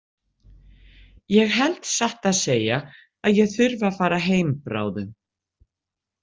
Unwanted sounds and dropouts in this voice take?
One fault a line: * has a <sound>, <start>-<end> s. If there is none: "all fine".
all fine